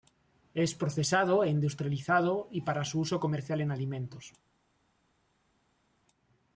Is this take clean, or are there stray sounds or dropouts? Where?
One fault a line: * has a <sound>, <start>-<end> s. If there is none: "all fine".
all fine